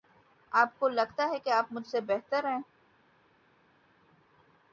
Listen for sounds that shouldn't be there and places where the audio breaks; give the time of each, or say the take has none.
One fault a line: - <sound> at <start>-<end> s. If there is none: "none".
none